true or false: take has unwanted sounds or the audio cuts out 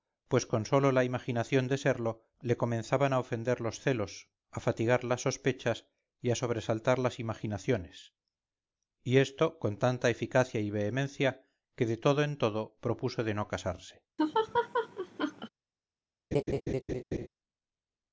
true